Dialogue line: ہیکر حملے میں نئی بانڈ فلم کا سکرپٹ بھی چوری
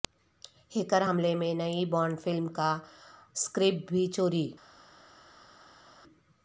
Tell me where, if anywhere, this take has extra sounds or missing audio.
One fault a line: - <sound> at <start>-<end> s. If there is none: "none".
none